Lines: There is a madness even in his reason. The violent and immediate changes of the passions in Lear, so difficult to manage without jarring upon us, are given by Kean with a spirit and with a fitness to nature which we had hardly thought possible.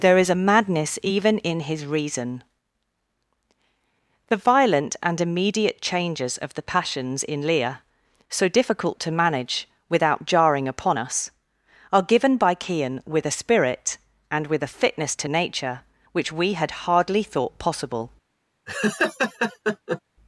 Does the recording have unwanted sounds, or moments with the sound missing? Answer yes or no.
yes